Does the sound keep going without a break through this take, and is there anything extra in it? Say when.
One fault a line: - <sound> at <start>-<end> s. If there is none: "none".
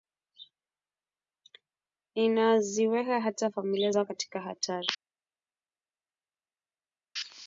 none